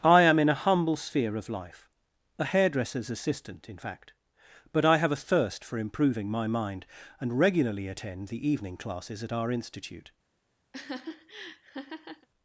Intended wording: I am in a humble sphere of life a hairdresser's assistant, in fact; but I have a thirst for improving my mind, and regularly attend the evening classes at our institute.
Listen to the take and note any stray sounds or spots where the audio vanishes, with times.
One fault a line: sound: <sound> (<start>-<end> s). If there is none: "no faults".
sound: laugh (10.7-12.3 s)